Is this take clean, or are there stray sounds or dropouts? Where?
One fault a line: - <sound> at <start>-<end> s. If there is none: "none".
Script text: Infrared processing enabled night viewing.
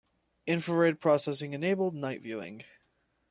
none